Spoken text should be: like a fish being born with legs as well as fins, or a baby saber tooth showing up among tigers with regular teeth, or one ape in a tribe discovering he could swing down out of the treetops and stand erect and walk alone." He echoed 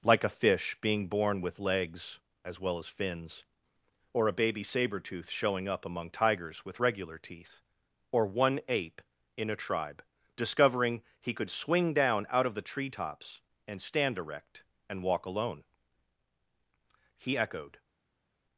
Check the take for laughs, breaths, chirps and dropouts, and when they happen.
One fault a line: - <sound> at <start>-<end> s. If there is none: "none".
none